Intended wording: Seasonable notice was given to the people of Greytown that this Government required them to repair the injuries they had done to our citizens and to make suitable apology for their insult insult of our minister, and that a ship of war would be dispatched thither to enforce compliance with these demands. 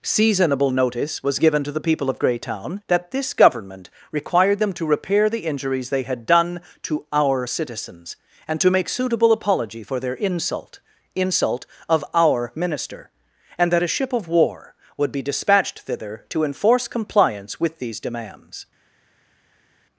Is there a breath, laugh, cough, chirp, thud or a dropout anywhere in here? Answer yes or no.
no